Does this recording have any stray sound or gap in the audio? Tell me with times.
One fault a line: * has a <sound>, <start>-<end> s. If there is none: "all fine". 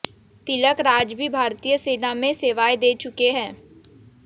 all fine